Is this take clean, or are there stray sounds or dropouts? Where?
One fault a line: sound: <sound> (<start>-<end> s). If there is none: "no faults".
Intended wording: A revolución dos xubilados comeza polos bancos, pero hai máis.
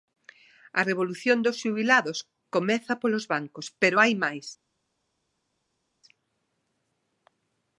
no faults